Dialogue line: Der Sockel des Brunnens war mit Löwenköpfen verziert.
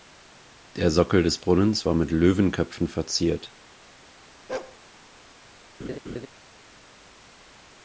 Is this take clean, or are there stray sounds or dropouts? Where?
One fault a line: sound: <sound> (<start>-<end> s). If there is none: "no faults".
sound: bark (4.5-4.8 s)
sound: laugh (5.8-6.3 s)